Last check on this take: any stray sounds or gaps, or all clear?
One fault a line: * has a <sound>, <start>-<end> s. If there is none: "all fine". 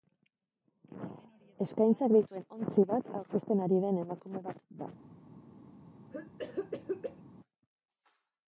* has a cough, 6.1-7.2 s